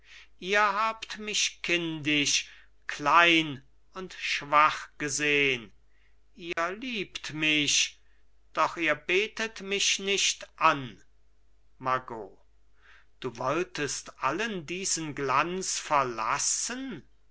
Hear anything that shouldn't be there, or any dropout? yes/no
yes